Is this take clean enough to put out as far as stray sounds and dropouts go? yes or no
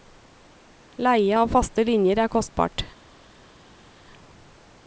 yes